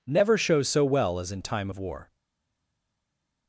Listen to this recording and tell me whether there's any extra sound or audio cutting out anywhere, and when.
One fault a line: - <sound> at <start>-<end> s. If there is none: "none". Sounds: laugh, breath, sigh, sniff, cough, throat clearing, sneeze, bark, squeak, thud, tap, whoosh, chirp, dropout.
none